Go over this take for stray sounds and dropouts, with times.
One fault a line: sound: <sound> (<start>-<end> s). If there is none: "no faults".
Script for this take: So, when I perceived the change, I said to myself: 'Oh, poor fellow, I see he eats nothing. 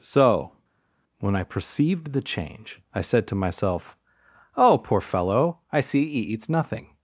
no faults